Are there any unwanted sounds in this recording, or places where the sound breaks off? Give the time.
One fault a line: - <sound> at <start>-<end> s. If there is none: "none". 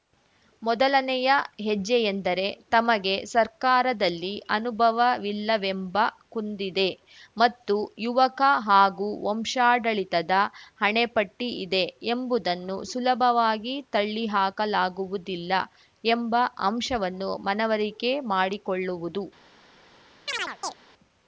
- chirp at 20.3-20.8 s